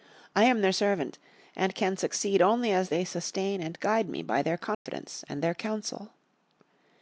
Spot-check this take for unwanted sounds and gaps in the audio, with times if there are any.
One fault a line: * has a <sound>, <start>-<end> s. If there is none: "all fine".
* has a dropout, 4.7-4.9 s